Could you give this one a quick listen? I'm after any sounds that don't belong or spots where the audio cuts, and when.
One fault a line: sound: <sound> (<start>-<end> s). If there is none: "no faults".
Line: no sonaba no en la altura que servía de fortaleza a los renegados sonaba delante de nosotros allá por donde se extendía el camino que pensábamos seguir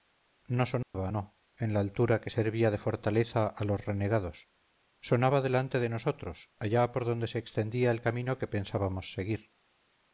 sound: dropout (0.8-0.9 s)